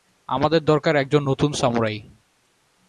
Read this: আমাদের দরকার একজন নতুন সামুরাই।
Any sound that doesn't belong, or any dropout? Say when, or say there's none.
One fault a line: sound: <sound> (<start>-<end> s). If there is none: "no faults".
no faults